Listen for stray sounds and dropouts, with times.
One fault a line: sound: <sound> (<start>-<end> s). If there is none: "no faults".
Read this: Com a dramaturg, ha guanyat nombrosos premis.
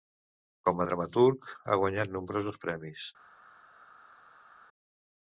no faults